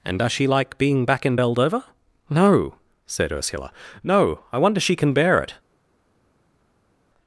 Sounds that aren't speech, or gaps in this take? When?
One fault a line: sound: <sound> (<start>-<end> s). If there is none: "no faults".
no faults